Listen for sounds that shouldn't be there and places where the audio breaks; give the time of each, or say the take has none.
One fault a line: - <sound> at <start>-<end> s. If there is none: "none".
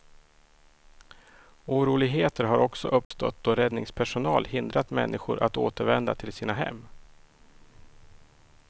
- dropout at 3.0-3.1 s